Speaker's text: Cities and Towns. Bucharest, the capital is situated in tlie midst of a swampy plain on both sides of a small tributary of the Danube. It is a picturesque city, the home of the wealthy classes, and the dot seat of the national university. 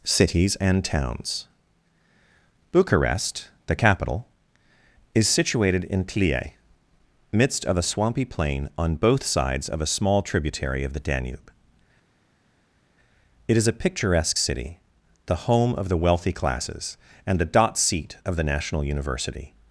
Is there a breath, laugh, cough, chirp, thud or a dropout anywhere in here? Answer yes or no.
no